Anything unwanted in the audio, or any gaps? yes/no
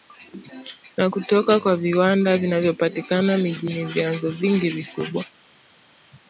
no